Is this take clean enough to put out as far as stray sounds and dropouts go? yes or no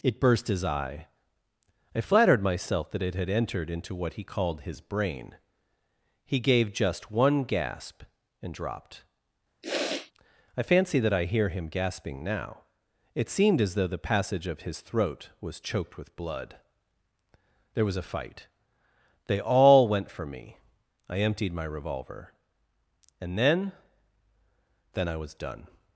no